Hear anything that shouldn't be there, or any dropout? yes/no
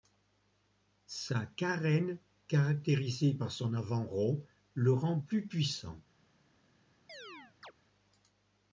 yes